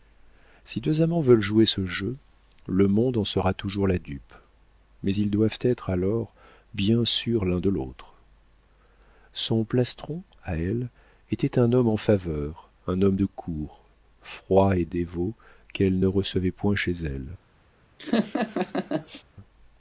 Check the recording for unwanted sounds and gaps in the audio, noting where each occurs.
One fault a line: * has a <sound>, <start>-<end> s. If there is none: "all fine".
* has a laugh, 18.0-19.2 s